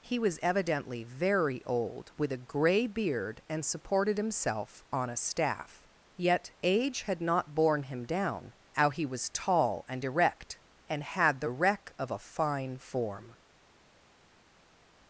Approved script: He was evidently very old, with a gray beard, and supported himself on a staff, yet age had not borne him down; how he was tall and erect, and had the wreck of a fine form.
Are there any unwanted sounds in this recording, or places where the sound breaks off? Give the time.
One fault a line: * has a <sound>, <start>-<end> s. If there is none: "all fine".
all fine